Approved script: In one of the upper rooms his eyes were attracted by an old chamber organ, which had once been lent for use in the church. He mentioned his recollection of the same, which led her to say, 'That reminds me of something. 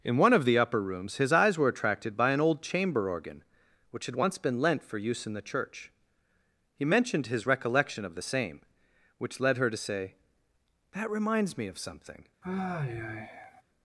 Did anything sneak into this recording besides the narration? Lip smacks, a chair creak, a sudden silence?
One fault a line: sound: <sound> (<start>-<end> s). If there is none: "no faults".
sound: sigh (12.4-13.6 s)